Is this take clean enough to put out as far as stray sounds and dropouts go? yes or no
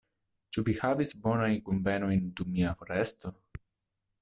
yes